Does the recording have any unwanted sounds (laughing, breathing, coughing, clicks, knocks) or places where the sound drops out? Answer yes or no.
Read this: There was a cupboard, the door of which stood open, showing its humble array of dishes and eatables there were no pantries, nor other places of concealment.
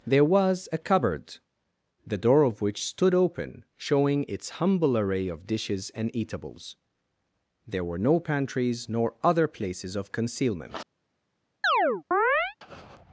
yes